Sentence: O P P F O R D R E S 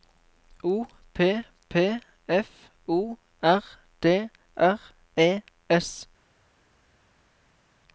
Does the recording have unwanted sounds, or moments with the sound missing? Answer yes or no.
no